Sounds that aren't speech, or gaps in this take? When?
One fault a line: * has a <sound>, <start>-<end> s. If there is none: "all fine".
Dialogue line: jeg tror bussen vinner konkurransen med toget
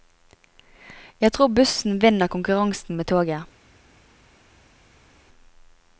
all fine